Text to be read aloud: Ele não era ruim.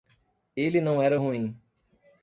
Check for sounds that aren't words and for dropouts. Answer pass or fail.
pass